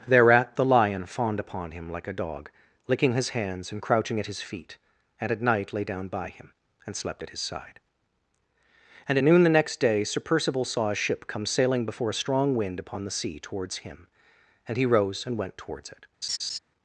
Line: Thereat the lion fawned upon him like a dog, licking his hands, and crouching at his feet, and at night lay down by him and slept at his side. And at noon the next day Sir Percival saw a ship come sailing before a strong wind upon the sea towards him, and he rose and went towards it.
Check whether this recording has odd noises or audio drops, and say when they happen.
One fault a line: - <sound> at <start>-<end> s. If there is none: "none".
- laugh at 16.2-16.6 s